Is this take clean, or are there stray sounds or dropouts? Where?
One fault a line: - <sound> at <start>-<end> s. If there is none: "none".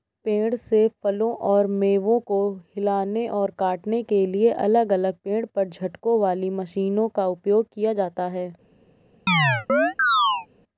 - chirp at 9.3-10.5 s